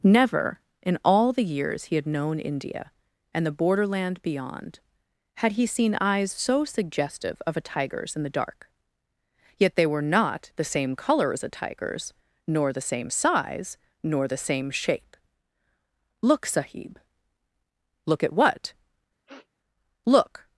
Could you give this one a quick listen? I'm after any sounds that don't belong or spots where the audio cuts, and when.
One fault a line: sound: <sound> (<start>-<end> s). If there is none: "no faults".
sound: sniff (19.3-19.5 s)